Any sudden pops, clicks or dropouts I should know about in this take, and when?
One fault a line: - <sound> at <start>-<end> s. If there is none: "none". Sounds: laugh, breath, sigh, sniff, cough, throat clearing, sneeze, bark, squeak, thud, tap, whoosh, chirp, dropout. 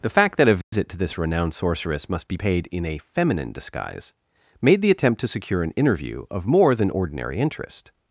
- dropout at 0.6-0.7 s